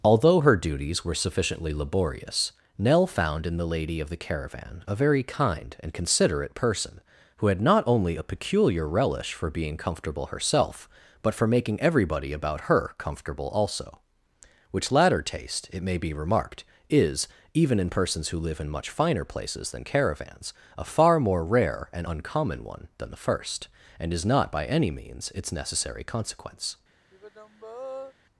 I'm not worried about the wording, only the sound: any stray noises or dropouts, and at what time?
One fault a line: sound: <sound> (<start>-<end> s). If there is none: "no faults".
sound: sigh (27.1-28.1 s)